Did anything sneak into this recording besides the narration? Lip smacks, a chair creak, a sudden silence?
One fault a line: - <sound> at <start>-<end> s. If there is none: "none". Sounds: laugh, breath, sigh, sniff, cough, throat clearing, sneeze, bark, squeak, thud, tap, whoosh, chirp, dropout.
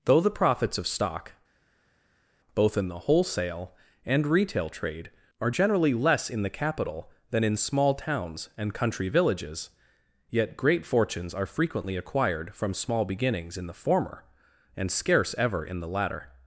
none